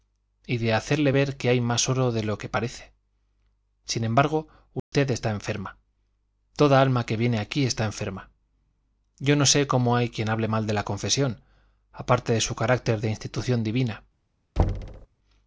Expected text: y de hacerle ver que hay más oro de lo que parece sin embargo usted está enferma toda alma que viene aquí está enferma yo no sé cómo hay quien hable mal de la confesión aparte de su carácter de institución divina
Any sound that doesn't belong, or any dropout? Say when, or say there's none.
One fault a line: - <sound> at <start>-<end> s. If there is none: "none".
- dropout at 4.8-4.9 s
- thud at 14.6-15.1 s